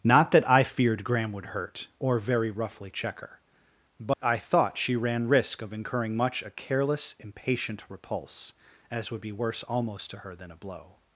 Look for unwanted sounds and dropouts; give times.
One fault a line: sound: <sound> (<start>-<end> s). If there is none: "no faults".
sound: dropout (4.1-4.2 s)